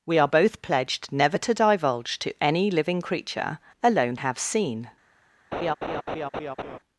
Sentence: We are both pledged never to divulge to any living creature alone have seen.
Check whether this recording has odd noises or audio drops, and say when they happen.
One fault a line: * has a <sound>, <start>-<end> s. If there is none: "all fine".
* has a laugh, 5.5-6.8 s